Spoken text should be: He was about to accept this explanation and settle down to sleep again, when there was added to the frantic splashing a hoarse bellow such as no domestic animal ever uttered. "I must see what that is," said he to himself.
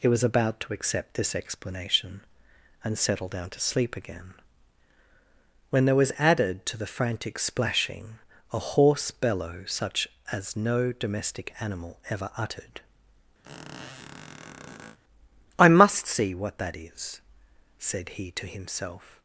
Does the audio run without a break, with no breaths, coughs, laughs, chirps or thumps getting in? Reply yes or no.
no